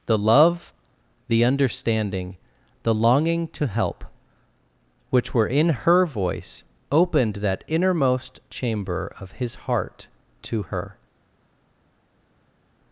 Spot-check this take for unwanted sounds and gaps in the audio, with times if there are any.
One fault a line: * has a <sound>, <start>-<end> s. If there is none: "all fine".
all fine